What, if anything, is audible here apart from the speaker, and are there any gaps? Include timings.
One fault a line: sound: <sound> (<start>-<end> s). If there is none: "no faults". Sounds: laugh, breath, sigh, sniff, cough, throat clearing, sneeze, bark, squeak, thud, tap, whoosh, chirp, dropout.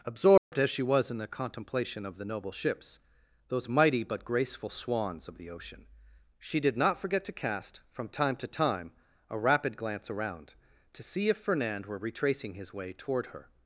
sound: dropout (0.4-0.5 s)